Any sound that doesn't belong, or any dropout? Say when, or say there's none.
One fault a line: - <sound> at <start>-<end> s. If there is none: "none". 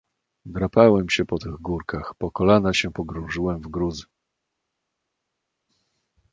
none